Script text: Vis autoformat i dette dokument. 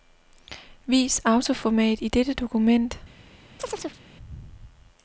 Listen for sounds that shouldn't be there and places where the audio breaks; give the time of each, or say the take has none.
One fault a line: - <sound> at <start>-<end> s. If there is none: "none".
- chirp at 3.6-4.0 s